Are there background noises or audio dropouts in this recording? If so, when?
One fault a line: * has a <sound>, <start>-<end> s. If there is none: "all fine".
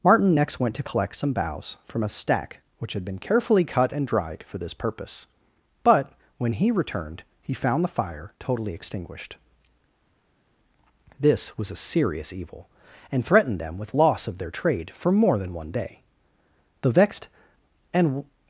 all fine